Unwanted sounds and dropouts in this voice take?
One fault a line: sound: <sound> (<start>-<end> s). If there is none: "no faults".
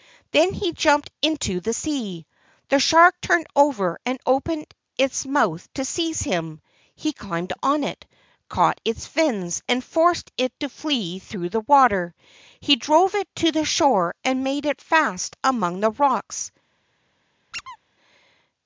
sound: squeak (17.5-17.8 s)